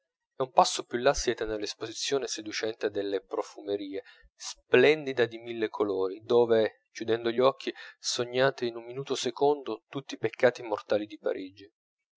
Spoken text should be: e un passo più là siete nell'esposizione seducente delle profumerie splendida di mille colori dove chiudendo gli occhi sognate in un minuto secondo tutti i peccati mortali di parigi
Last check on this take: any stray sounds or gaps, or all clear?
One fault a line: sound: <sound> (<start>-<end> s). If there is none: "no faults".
no faults